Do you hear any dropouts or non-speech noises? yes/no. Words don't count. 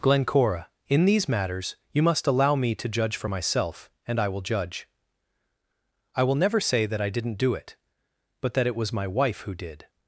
no